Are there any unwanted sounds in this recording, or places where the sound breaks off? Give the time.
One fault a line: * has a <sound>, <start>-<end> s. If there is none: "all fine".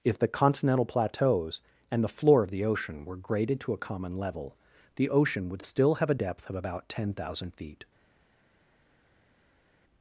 all fine